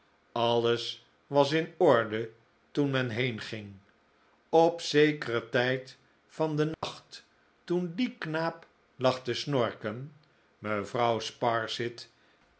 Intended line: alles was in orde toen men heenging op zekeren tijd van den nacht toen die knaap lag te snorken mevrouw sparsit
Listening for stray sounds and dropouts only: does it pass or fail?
fail